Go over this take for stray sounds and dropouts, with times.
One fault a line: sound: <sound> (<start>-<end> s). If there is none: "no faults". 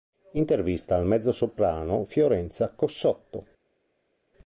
no faults